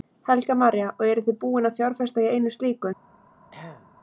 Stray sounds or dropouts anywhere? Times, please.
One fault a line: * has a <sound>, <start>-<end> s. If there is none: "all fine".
* has a throat clearing, 3.5-3.9 s